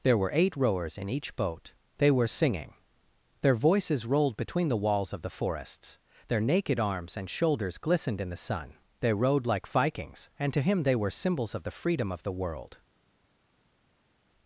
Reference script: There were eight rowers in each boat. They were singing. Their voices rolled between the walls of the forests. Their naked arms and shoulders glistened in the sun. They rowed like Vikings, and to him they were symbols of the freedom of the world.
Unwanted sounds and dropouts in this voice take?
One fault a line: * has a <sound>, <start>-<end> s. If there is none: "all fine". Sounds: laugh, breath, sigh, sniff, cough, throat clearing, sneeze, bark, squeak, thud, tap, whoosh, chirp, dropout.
all fine